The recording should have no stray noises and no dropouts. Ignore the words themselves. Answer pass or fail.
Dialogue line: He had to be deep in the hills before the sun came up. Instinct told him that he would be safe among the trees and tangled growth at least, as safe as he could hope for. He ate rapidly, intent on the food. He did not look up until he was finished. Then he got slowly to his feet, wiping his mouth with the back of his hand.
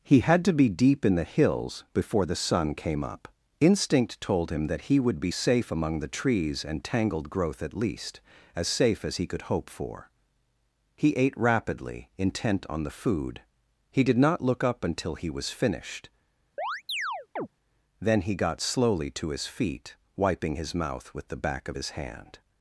fail